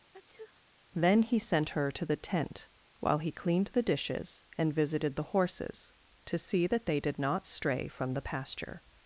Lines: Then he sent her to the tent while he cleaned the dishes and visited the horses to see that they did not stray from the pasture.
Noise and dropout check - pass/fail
fail